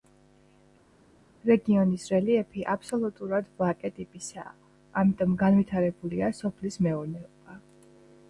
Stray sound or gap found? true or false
false